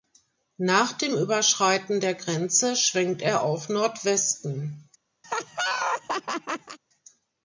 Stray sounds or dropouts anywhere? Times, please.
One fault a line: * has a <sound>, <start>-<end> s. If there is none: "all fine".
* has a laugh, 5.2-6.8 s